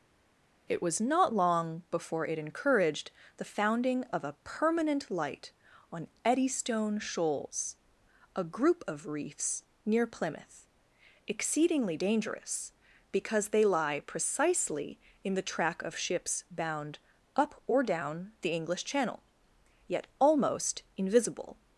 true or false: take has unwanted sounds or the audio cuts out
false